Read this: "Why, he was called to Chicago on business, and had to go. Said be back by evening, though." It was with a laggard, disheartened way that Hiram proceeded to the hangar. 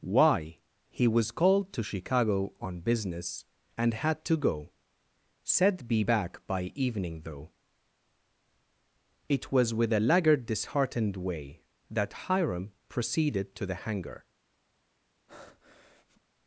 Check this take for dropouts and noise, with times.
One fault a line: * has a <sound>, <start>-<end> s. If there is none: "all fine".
* has a breath, 15.3-16.2 s